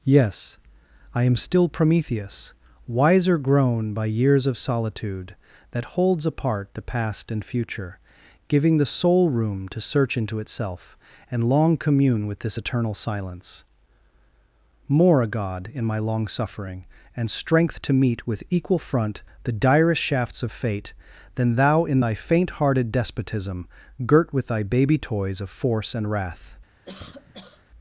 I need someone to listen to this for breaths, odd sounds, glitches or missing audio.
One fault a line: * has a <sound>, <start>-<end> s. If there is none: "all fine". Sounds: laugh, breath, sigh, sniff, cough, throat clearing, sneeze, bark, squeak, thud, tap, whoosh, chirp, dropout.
* has a cough, 26.9-27.7 s